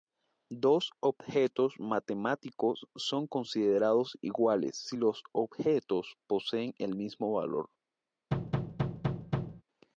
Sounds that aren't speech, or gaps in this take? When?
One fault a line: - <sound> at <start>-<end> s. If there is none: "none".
- thud at 8.3-9.6 s